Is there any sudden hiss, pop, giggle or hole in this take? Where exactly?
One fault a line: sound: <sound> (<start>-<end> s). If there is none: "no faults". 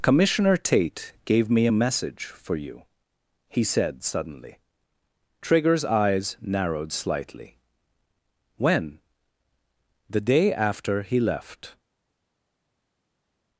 no faults